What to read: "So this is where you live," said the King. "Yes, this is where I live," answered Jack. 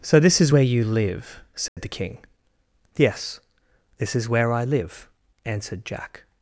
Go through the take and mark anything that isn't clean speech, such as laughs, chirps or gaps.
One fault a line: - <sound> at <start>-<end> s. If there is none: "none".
- dropout at 1.7-1.8 s